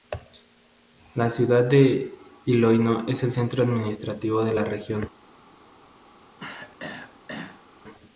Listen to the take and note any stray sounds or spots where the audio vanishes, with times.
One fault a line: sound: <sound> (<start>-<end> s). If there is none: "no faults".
sound: throat clearing (6.4-7.7 s)